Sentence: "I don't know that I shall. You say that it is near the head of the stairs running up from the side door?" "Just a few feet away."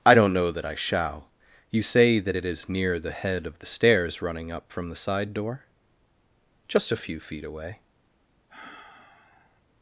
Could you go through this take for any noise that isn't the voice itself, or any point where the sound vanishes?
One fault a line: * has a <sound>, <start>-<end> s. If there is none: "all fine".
* has a sigh, 8.5-9.6 s